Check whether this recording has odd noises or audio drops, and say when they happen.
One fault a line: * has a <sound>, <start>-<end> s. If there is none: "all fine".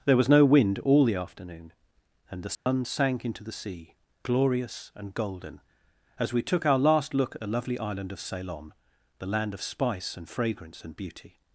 * has a dropout, 2.5-2.7 s